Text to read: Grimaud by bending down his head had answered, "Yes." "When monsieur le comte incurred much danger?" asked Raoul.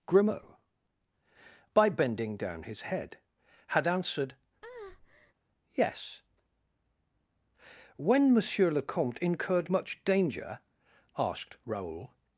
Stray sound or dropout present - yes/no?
yes